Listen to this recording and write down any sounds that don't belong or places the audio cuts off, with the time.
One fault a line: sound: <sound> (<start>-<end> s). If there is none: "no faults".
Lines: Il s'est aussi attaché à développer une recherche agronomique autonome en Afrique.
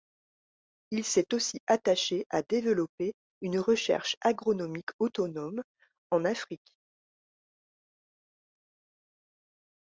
no faults